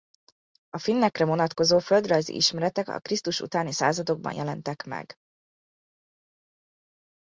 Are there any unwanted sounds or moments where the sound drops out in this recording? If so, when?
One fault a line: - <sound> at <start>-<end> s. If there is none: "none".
none